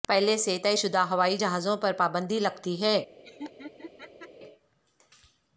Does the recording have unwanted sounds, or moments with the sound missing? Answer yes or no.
yes